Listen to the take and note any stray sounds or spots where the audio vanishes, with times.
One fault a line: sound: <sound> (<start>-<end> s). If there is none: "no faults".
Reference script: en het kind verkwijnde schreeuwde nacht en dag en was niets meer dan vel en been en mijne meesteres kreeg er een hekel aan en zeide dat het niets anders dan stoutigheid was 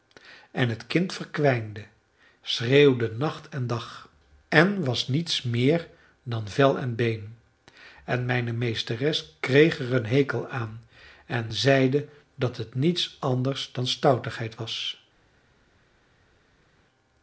no faults